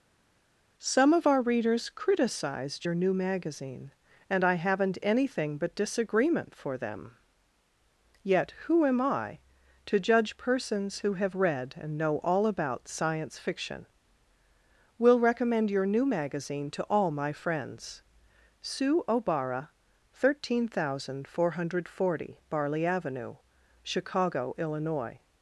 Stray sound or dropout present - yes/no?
no